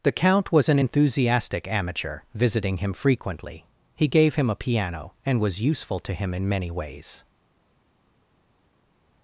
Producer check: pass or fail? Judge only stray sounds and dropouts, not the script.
pass